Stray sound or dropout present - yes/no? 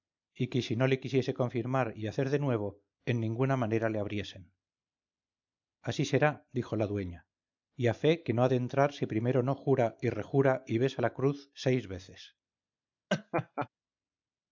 yes